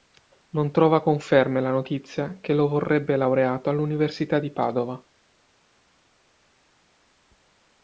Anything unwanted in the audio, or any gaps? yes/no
no